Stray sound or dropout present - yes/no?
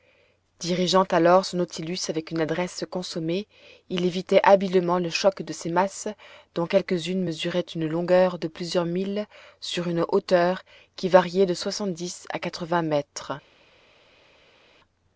no